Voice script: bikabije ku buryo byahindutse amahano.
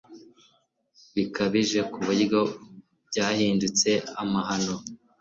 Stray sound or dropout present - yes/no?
no